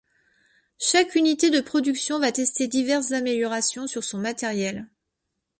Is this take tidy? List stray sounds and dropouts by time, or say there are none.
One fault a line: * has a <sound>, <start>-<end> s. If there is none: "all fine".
all fine